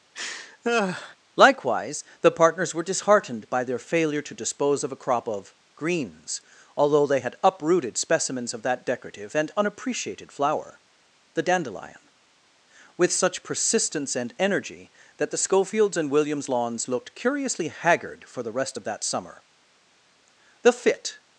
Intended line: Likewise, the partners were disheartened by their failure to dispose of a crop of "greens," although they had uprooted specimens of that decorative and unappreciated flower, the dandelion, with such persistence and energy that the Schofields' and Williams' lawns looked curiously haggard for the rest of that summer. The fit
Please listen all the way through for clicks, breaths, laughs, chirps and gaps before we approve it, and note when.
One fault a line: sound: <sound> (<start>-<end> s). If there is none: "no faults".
sound: laugh (0.1-1.2 s)